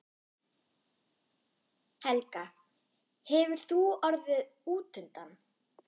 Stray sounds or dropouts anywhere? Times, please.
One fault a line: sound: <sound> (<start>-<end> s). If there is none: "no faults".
no faults